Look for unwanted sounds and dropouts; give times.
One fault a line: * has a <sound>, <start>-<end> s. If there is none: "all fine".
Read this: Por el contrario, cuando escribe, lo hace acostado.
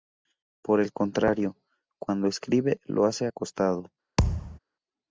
* has a thud, 4.2-4.6 s